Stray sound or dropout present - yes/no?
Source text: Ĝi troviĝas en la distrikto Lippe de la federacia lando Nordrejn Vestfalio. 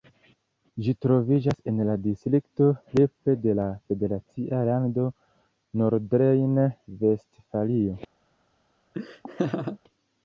yes